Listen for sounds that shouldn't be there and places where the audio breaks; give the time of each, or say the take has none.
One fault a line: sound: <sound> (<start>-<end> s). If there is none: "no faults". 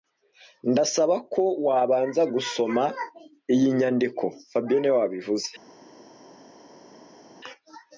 no faults